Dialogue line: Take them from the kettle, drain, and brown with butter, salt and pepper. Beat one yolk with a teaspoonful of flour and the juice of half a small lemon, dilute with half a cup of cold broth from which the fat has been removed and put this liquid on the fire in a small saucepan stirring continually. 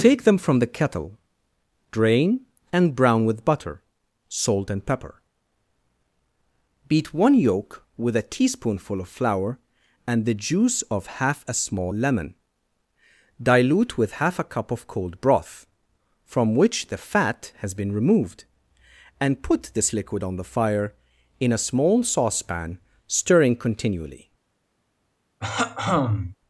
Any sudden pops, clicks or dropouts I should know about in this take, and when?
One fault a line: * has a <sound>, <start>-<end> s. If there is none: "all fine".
* has a throat clearing, 25.4-26.4 s